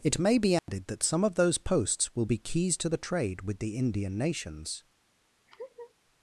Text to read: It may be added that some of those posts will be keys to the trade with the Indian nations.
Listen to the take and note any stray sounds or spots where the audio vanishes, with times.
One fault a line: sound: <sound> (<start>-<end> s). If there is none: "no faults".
sound: dropout (0.6-0.7 s)
sound: laugh (5.5-5.9 s)